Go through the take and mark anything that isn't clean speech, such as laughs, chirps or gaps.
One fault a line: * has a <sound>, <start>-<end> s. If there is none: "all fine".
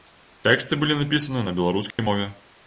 * has a dropout, 1.9-2.0 s